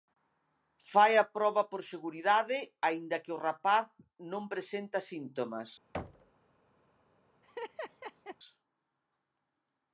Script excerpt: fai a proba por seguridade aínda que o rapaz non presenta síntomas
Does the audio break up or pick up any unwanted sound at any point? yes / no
yes